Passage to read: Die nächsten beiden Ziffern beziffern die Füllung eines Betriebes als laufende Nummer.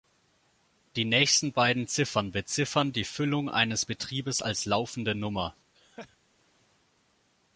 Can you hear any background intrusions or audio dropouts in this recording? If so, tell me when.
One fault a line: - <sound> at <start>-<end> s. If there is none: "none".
- laugh at 5.7-6.2 s